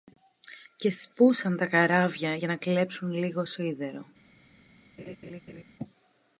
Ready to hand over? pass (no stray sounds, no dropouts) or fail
fail